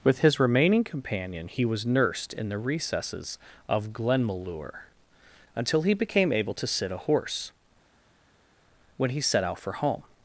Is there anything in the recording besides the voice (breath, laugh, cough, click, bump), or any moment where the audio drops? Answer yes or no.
no